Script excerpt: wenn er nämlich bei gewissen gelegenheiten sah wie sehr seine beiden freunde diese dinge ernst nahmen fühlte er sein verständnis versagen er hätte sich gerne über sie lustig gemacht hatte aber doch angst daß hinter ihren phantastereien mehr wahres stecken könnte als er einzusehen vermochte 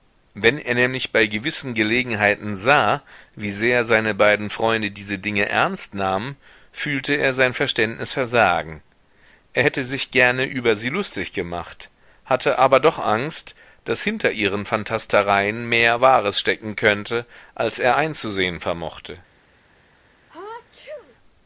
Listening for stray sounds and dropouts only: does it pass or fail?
fail